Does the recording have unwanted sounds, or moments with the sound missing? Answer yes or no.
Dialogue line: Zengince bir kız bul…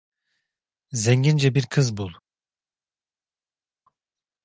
no